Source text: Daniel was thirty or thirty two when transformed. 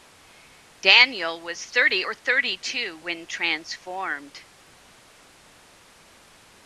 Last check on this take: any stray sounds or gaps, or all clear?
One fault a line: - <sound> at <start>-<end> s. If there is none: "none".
none